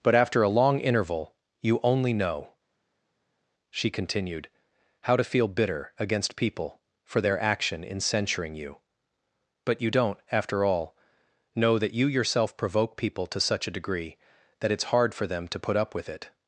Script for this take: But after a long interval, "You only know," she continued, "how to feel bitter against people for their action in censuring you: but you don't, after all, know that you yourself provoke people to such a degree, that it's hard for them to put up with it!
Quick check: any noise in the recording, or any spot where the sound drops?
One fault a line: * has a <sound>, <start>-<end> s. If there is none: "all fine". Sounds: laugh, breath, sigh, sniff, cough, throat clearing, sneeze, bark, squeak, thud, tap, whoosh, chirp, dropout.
all fine